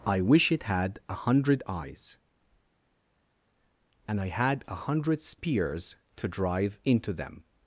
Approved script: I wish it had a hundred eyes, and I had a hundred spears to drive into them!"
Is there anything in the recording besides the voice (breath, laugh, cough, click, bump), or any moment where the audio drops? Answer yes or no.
no